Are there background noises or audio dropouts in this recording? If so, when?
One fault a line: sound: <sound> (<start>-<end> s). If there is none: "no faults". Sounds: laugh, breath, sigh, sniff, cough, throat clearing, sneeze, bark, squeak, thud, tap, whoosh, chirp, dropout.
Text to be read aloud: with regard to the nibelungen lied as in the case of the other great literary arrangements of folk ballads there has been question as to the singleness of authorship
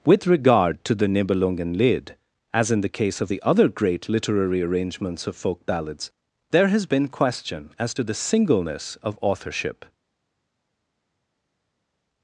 no faults